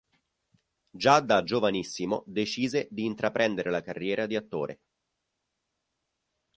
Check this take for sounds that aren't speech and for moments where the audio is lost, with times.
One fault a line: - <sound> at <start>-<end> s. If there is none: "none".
none